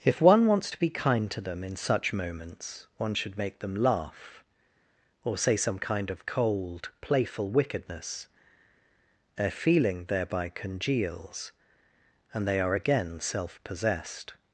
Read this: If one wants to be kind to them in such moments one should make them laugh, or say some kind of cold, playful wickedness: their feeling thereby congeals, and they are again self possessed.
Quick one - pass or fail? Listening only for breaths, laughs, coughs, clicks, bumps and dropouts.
pass